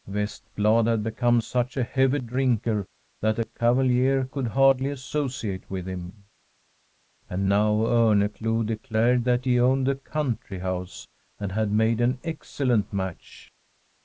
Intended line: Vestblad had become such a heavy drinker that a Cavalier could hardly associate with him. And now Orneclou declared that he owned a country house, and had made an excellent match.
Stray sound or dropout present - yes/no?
no